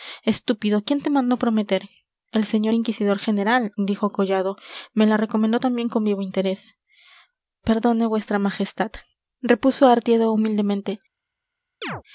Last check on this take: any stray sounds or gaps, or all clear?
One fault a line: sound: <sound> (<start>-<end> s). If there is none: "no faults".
sound: chirp (11.8-12.0 s)